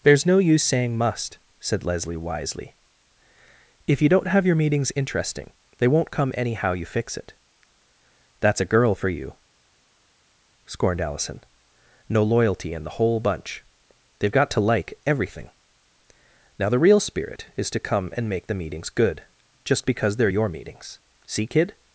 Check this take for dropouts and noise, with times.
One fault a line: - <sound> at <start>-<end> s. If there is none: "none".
none